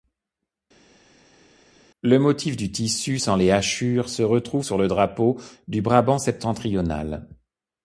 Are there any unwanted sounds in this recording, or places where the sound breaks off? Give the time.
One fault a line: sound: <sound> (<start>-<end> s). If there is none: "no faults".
no faults